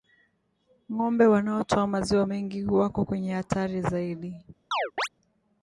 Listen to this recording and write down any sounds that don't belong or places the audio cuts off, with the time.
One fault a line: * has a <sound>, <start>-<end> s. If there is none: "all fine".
* has a chirp, 4.7-5.1 s